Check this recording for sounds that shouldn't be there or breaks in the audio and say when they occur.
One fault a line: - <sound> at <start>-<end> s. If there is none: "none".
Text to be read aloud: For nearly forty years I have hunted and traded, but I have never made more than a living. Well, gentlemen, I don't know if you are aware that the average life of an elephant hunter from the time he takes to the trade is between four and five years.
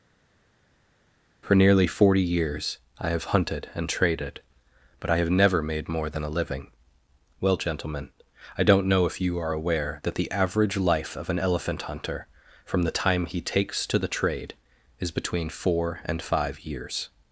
none